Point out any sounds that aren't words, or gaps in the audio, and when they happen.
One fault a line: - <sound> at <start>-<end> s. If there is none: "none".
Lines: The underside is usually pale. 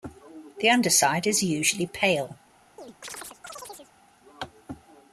- chirp at 2.8-3.9 s